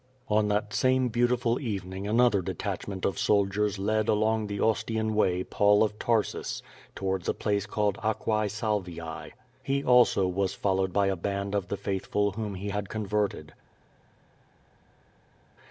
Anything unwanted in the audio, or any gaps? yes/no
no